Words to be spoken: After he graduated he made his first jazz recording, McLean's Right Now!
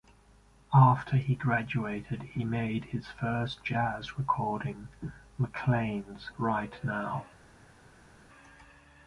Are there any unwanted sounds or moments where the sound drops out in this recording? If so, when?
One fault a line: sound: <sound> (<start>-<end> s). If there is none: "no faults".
no faults